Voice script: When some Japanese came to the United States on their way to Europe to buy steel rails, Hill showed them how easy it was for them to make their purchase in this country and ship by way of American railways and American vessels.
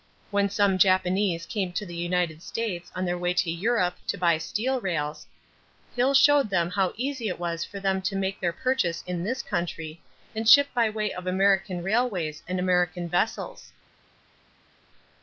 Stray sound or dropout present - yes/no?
no